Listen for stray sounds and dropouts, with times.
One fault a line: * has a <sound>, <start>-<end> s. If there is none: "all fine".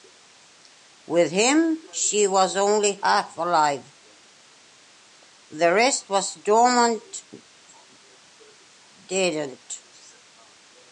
all fine